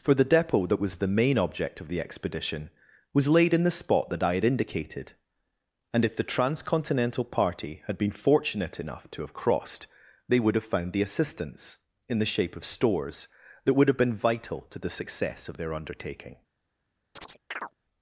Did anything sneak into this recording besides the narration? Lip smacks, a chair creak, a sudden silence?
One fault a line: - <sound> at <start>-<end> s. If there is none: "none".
- chirp at 17.2-17.7 s